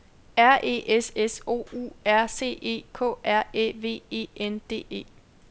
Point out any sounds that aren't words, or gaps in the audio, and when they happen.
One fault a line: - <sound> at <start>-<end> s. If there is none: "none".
none